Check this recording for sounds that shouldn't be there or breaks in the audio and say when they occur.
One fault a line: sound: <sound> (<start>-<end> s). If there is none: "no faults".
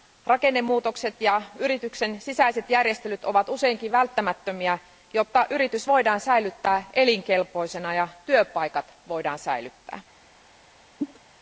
sound: cough (11.0-11.2 s)